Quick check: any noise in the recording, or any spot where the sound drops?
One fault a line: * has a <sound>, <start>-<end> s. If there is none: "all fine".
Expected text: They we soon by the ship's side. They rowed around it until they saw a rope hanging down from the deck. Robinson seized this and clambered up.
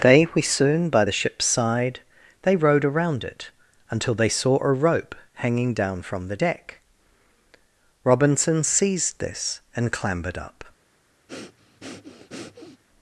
* has a breath, 11.3-12.8 s